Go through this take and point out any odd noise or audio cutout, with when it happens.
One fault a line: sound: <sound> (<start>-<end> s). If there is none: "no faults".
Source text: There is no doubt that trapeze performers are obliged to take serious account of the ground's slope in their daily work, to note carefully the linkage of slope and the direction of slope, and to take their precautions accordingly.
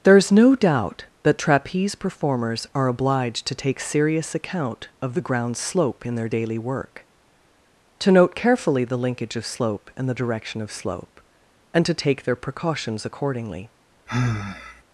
sound: sigh (14.1-14.8 s)